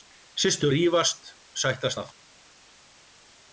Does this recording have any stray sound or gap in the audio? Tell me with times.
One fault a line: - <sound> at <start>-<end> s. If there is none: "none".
none